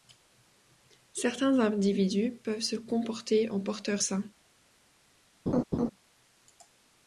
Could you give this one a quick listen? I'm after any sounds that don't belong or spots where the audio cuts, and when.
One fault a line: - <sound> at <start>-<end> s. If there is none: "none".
- laugh at 5.5-5.9 s